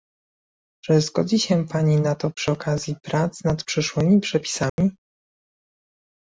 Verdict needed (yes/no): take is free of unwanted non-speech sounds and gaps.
no